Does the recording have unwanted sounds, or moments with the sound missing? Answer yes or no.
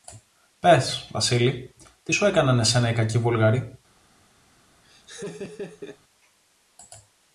yes